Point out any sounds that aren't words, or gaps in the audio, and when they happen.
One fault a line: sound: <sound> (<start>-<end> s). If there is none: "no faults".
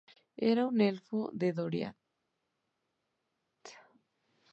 no faults